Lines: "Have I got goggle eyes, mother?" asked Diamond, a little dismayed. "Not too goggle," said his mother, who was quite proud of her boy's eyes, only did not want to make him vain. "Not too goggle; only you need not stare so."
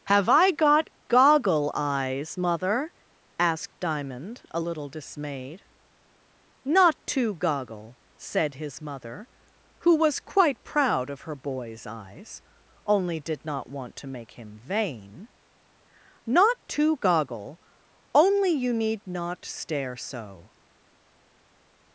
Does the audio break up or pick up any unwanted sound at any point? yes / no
no